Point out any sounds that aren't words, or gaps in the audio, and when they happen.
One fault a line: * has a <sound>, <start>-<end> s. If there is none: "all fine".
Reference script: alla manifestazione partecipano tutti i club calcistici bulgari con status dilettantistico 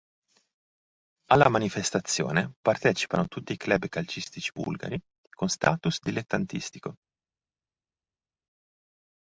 all fine